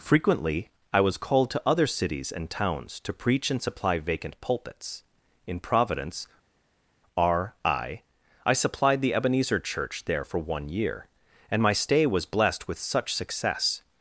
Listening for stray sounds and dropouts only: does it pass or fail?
pass